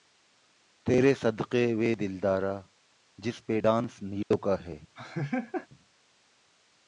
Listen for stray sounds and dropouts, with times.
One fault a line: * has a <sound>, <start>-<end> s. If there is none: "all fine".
* has a dropout, 4.2-4.3 s
* has a laugh, 5.0-5.7 s